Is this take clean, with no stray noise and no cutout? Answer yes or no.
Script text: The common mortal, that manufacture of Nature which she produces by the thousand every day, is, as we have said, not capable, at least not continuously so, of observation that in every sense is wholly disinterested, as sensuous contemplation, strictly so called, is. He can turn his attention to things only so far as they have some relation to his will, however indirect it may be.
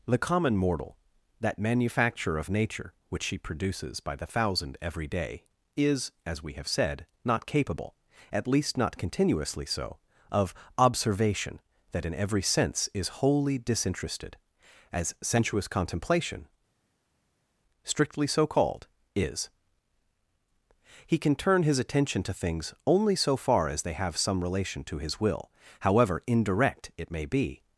yes